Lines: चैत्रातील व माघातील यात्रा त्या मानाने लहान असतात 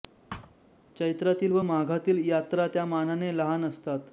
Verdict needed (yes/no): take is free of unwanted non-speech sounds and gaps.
no